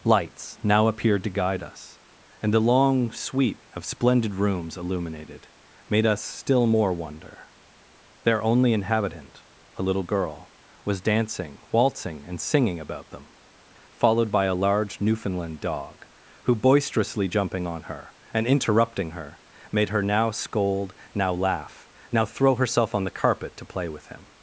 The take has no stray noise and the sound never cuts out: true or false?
true